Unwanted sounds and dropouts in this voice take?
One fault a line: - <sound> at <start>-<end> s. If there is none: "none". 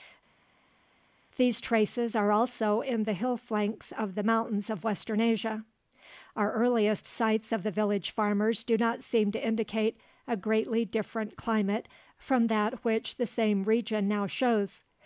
none